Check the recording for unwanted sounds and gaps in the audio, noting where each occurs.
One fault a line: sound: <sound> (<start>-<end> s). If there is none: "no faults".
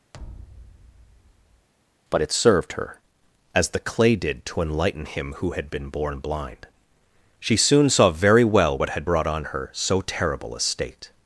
sound: thud (0.1-1.7 s)